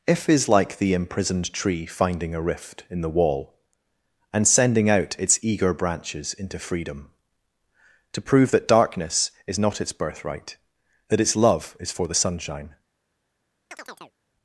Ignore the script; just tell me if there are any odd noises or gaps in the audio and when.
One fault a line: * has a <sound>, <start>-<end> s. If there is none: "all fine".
* has a chirp, 13.7-14.1 s